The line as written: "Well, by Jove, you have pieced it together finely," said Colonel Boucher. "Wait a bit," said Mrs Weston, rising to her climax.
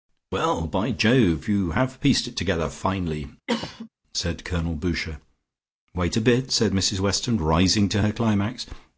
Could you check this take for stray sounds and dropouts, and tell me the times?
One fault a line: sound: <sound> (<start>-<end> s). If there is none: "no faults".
sound: cough (3.5-3.9 s)